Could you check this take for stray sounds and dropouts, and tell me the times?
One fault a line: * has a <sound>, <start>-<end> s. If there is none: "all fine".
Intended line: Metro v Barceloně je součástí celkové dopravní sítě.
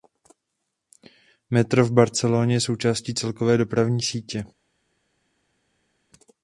all fine